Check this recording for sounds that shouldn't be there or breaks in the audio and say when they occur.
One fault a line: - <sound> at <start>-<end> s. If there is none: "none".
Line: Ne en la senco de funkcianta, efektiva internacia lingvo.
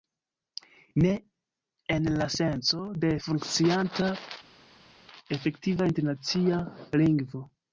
none